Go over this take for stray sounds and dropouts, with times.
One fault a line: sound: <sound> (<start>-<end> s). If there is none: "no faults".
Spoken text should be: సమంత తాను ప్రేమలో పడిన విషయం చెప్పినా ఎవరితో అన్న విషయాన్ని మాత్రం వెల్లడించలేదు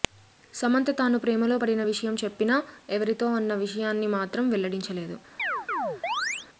sound: chirp (5.4-6.5 s)